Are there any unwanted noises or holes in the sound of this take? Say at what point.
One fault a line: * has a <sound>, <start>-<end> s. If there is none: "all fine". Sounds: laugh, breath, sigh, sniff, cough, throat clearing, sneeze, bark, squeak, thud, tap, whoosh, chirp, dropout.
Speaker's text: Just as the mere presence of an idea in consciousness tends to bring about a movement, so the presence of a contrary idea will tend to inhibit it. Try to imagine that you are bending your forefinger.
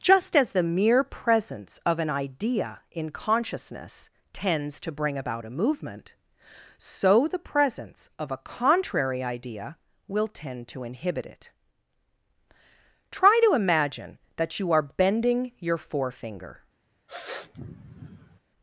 * has a sniff, 17.1-18.4 s